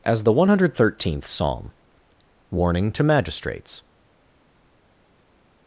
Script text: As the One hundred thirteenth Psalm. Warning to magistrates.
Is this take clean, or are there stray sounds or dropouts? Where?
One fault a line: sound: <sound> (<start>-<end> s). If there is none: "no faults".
no faults